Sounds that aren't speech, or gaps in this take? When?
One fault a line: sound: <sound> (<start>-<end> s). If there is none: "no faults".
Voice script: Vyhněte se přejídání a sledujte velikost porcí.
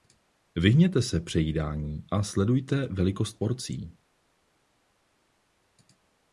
no faults